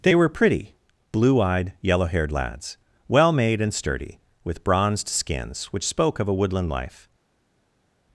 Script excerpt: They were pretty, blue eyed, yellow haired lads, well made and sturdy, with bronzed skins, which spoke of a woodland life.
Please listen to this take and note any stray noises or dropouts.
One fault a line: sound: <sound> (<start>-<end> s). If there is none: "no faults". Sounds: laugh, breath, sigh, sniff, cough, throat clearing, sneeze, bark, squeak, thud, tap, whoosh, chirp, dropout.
no faults